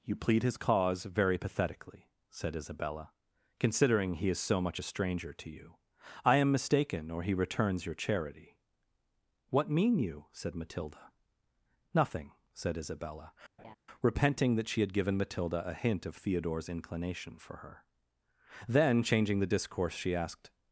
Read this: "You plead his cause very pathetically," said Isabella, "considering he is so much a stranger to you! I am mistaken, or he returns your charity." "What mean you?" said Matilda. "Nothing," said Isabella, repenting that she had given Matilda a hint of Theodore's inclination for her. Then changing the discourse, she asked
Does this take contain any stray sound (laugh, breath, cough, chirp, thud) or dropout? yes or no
yes